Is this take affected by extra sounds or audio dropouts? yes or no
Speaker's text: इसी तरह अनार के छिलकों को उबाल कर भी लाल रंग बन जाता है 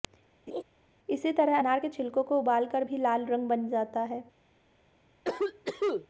yes